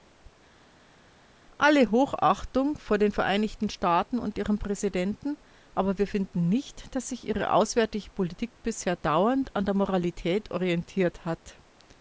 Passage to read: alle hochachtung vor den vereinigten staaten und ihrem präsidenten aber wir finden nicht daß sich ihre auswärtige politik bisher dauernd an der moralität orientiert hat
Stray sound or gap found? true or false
false